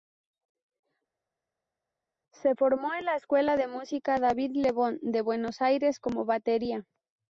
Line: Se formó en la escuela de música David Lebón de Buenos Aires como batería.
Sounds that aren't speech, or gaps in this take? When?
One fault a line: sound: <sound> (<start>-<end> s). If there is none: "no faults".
no faults